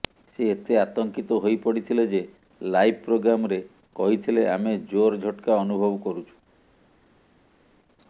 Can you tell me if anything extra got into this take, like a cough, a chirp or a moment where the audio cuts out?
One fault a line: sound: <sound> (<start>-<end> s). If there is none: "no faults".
no faults